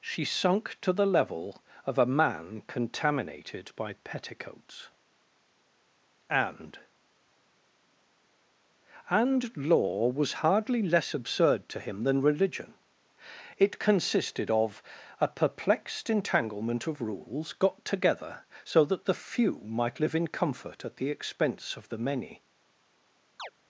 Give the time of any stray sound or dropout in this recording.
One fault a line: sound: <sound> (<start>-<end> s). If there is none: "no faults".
sound: chirp (23.4-23.5 s)